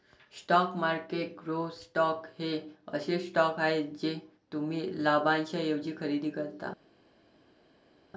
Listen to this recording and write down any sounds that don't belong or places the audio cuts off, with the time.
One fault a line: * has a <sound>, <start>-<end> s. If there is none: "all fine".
all fine